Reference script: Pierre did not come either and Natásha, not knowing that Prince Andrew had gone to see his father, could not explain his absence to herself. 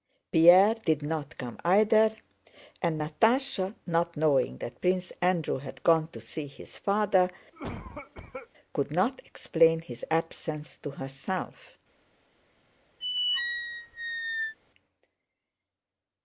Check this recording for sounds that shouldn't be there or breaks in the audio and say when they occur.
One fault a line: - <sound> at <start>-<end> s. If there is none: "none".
- cough at 7.5-8.5 s
- squeak at 13.0-14.5 s